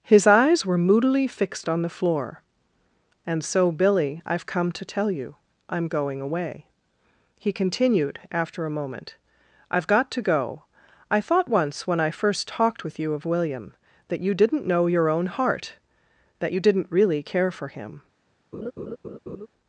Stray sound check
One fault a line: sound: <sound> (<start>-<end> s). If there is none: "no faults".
sound: laugh (18.5-19.5 s)